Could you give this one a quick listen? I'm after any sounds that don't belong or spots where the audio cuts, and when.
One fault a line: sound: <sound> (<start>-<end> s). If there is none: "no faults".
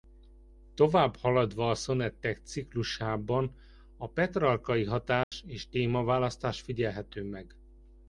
sound: dropout (5.2-5.3 s)